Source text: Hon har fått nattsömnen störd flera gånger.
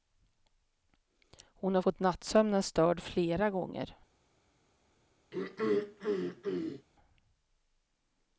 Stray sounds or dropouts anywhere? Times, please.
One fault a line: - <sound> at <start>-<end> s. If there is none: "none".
- throat clearing at 5.3-6.9 s